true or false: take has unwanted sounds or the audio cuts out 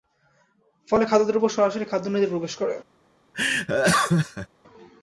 true